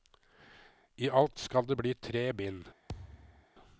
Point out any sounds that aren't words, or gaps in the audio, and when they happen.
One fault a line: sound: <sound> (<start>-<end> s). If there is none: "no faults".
sound: thud (2.9-3.5 s)